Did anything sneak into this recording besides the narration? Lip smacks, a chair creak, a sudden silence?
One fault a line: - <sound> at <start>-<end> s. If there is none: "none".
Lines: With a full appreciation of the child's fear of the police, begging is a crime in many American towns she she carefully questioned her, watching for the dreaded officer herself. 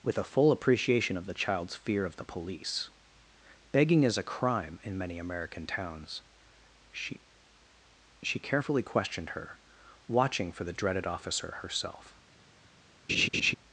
- laugh at 13.1-13.5 s